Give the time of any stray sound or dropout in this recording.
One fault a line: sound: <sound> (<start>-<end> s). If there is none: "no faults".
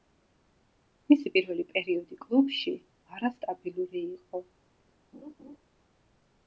sound: laugh (5.1-5.6 s)